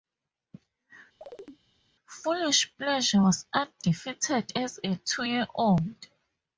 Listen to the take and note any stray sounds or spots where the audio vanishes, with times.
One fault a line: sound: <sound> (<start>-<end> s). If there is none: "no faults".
sound: chirp (1.2-1.6 s)